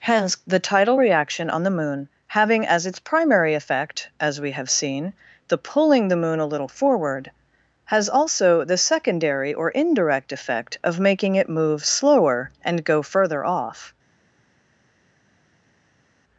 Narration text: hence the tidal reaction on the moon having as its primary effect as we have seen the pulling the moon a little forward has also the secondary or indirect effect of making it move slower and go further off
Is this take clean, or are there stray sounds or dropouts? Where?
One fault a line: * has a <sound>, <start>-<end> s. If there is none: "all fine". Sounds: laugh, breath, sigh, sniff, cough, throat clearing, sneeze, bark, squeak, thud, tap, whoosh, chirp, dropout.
all fine